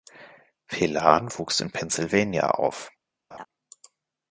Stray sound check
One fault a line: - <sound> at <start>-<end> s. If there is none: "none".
- laugh at 3.3-3.5 s